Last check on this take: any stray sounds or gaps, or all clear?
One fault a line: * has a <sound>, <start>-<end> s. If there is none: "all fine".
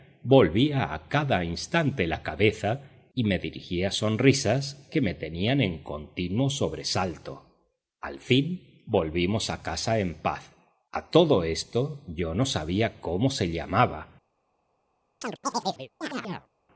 * has a chirp, 15.2-16.5 s